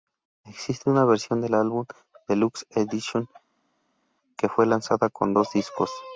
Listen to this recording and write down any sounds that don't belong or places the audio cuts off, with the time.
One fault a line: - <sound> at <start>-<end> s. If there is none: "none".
none